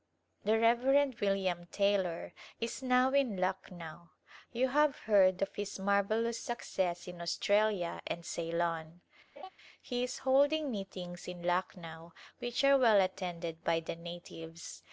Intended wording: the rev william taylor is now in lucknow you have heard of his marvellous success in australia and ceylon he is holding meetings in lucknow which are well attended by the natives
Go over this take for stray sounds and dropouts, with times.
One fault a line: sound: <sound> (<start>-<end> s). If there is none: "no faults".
sound: laugh (9.4-9.5 s)